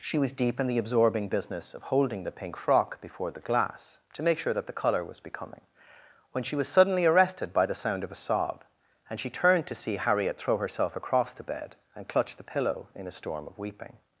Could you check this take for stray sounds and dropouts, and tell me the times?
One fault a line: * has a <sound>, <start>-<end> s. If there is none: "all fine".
all fine